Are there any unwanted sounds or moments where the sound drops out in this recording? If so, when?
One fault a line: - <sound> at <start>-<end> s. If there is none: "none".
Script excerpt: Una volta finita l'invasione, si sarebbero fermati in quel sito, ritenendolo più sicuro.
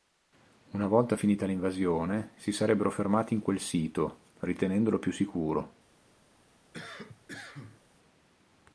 - cough at 6.7-7.8 s